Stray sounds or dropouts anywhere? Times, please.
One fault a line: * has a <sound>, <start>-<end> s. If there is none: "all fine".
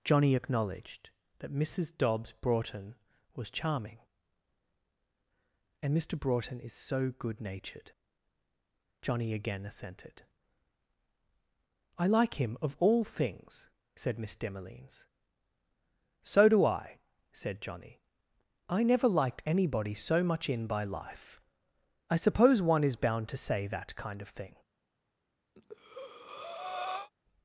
* has a breath, 25.6-27.1 s